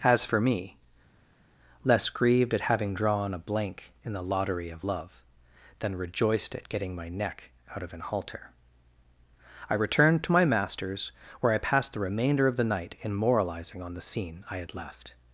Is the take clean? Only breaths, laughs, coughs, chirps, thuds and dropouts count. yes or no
yes